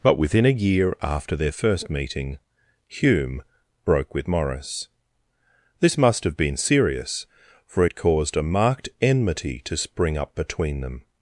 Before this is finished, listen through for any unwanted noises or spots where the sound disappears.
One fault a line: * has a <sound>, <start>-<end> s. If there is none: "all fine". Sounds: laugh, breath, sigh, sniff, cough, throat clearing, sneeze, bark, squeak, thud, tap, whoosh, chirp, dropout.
all fine